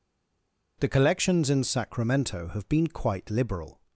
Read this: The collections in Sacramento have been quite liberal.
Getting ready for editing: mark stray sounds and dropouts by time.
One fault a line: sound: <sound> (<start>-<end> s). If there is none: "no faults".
no faults